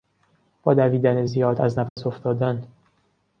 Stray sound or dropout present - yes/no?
yes